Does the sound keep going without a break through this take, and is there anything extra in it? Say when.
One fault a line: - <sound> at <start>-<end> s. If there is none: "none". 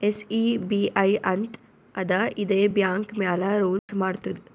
- dropout at 3.8-3.9 s